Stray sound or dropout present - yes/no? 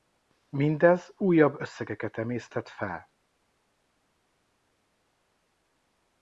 no